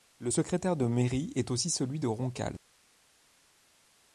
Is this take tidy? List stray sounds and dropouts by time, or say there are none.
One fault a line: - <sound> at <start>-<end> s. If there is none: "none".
none